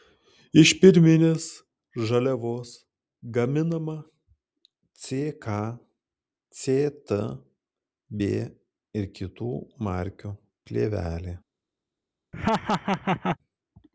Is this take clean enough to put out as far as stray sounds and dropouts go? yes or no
no